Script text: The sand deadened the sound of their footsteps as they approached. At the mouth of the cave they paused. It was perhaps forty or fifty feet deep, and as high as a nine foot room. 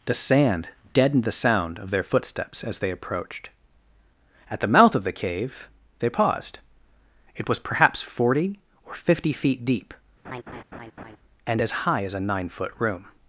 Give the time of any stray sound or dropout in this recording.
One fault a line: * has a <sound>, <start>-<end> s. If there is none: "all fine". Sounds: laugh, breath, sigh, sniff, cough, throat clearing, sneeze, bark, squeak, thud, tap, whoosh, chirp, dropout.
* has a laugh, 10.2-11.2 s